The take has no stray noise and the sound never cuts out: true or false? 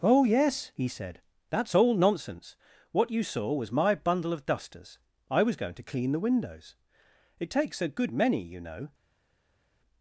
true